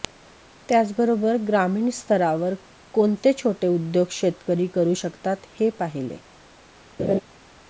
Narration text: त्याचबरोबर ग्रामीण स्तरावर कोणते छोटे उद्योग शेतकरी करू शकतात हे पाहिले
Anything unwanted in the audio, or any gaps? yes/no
yes